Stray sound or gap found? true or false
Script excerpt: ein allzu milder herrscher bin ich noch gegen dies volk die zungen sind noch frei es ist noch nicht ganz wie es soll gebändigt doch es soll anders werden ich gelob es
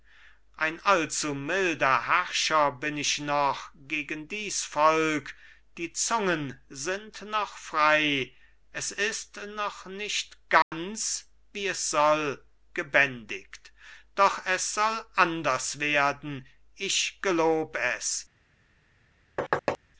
true